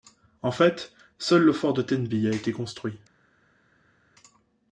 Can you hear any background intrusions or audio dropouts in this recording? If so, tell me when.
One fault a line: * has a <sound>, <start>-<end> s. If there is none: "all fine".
all fine